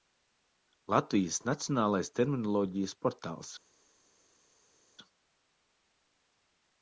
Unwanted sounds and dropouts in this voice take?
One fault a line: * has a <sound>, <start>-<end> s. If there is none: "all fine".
all fine